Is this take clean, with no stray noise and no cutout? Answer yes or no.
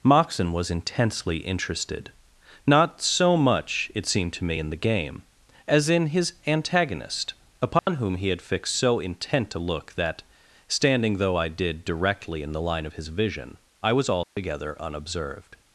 no